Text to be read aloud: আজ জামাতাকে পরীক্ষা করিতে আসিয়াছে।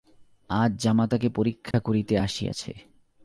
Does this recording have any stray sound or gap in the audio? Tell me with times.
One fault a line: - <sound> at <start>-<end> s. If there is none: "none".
- dropout at 1.7-1.7 s